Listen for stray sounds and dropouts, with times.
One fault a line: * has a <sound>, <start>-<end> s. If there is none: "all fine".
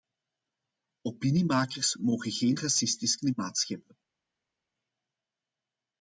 all fine